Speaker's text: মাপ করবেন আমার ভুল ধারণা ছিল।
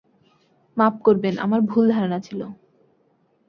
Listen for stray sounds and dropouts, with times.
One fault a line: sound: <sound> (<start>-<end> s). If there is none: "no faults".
no faults